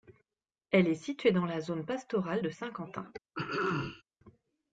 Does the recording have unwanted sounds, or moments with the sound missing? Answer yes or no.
yes